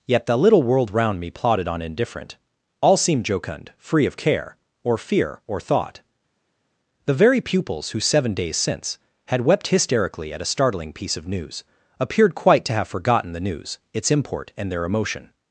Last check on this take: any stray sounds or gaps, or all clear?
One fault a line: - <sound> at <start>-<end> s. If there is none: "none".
none